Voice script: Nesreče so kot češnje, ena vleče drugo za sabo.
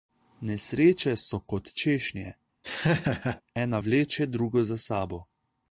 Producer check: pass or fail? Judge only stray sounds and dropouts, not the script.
fail